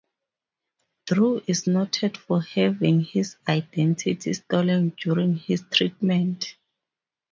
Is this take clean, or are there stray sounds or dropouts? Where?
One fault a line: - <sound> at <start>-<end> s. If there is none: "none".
none